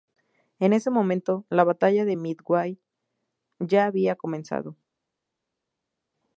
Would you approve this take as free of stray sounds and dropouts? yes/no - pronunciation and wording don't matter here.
yes